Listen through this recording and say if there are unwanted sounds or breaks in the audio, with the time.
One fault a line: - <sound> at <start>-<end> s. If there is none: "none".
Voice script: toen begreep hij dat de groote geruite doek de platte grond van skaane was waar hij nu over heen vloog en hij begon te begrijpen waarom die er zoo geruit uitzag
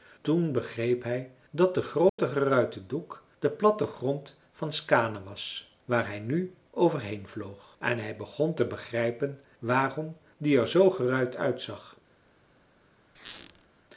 - dropout at 2.1-2.2 s
- squeak at 13.2-13.7 s